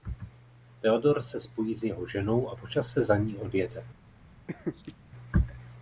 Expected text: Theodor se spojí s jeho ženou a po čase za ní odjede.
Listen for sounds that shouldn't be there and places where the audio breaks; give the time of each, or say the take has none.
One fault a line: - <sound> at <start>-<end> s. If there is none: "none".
- laugh at 4.5-4.9 s